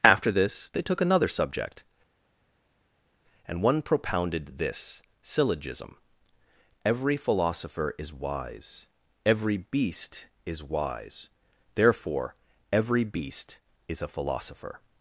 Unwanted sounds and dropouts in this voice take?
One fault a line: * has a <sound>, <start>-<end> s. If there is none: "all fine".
all fine